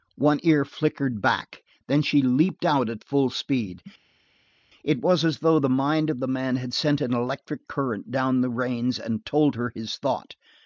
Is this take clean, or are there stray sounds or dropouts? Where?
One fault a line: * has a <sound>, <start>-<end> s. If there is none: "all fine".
all fine